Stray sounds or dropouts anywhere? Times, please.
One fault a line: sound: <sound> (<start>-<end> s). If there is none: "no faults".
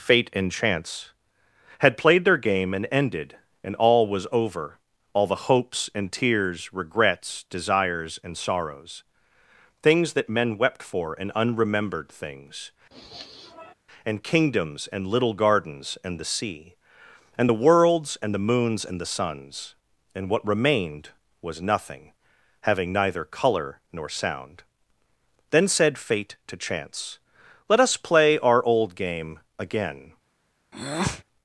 sound: sniff (12.9-13.7 s)
sound: breath (30.7-31.2 s)